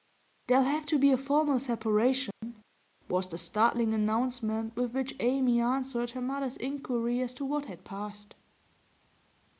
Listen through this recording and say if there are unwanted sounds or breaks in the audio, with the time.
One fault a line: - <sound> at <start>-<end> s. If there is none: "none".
- dropout at 2.3-2.4 s